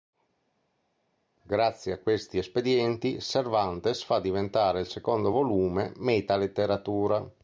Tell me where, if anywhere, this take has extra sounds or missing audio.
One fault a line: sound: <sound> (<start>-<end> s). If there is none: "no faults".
no faults